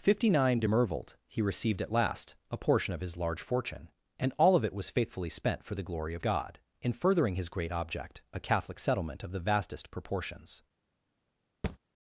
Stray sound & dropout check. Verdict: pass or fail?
fail